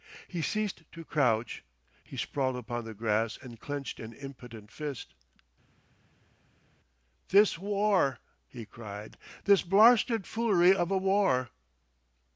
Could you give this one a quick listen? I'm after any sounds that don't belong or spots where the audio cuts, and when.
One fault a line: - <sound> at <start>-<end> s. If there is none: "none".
none